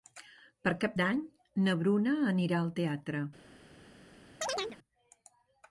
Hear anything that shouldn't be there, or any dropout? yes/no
yes